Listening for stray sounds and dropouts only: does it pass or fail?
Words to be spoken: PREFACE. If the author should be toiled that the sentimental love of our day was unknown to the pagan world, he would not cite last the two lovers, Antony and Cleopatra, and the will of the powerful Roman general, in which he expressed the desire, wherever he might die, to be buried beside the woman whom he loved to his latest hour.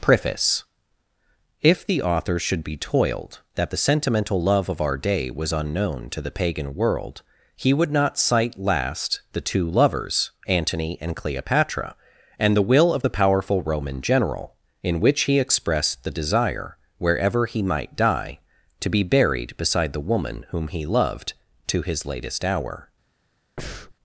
fail